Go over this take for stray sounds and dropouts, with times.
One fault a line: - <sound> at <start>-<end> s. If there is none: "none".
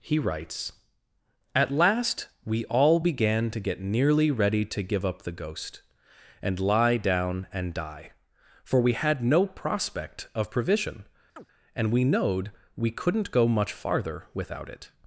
- chirp at 11.4-11.5 s